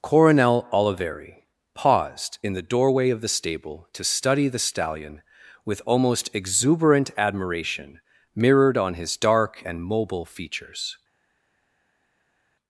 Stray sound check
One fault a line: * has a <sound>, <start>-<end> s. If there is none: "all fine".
all fine